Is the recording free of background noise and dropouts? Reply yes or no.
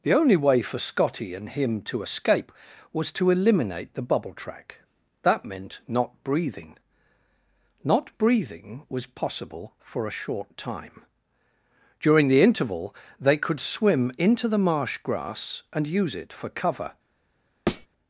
no